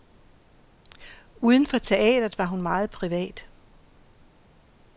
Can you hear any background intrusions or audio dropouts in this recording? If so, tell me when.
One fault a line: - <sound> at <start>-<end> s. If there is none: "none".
none